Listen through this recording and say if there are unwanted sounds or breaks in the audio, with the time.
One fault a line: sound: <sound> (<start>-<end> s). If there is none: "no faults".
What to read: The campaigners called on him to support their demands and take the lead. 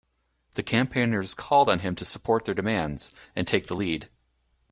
no faults